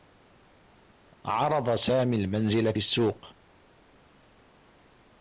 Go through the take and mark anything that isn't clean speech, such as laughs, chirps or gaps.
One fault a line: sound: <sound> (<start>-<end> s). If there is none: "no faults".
no faults